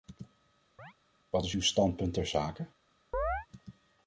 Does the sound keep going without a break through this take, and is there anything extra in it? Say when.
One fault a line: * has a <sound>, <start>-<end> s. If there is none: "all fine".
* has a chirp, 0.8-0.9 s
* has a chirp, 3.1-3.5 s